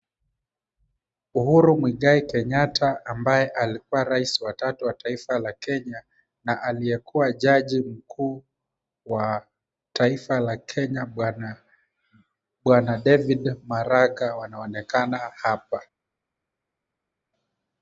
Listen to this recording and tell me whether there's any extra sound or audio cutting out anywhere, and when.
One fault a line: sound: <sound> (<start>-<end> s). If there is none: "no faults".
no faults